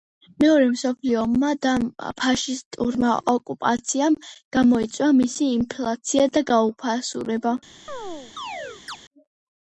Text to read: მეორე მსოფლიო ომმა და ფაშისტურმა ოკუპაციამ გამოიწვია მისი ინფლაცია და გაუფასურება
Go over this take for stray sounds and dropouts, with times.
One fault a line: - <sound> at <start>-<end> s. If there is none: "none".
- chirp at 7.9-9.0 s